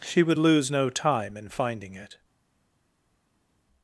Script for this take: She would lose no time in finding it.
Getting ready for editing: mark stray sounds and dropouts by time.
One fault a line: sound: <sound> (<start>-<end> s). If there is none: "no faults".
no faults